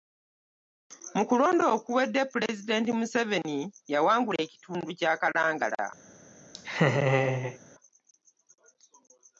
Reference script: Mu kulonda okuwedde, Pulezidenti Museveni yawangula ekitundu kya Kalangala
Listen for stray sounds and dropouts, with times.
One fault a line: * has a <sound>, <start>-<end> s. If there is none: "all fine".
* has a laugh, 6.5-7.6 s